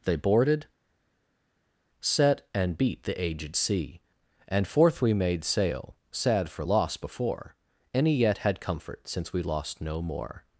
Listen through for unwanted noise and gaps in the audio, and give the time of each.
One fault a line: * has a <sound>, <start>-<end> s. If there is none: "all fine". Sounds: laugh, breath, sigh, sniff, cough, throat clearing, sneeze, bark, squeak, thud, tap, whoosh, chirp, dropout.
all fine